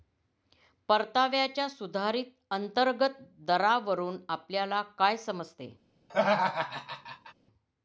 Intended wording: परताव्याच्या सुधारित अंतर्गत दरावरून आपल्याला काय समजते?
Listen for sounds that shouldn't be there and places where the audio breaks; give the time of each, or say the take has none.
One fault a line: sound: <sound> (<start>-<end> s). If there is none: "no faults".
sound: laugh (6.1-7.3 s)